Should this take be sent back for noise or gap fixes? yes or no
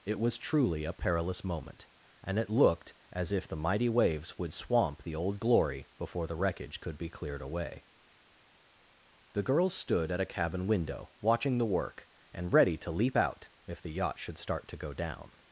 no